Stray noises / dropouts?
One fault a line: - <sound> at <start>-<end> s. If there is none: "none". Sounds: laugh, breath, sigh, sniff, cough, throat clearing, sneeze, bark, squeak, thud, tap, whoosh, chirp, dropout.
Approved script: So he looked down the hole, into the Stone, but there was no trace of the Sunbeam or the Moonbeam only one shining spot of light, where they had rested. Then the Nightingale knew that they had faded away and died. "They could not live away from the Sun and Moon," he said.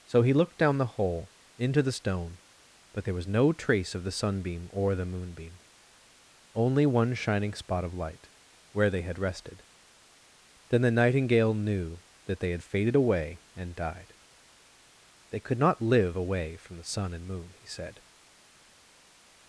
none